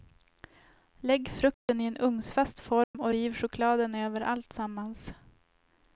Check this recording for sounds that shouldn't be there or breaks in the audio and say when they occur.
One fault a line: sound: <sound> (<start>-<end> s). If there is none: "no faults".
sound: dropout (1.5-1.7 s)
sound: dropout (2.8-2.9 s)